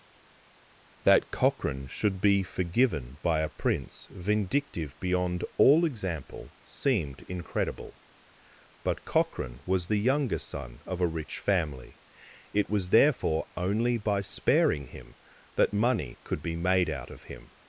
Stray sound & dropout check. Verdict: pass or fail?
pass